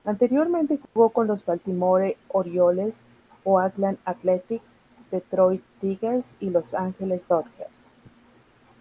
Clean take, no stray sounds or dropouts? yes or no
no